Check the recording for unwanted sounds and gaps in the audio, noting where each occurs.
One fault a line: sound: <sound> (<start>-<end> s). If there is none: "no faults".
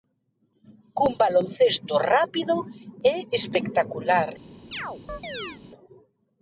sound: chirp (4.7-5.6 s)